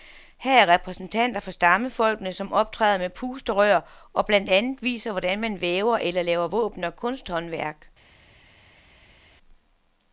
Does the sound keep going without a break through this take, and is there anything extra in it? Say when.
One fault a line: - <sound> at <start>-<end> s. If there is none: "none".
none